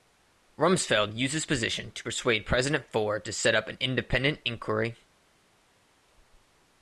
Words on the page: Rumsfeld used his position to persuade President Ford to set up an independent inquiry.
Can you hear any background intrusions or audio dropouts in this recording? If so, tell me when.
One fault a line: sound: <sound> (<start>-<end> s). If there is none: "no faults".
no faults